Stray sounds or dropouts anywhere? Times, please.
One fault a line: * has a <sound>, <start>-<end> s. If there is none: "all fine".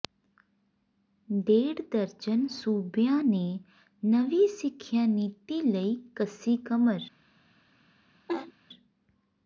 * has a laugh, 8.3-8.5 s